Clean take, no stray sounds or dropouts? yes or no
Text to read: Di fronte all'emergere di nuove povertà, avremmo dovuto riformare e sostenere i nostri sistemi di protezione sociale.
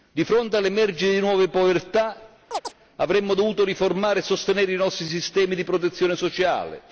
no